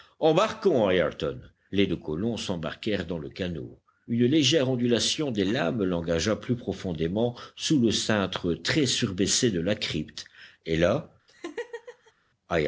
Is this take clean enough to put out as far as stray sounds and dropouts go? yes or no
no